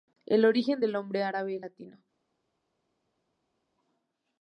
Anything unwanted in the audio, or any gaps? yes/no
no